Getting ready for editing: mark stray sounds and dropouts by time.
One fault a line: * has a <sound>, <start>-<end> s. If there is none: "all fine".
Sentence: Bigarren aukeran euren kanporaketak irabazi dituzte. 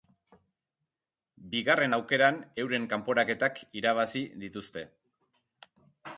all fine